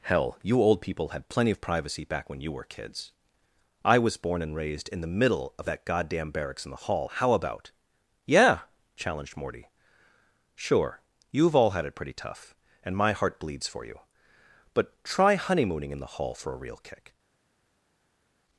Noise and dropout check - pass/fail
pass